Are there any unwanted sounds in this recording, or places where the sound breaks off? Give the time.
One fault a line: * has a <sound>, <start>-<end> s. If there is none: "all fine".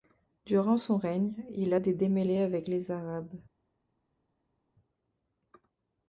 all fine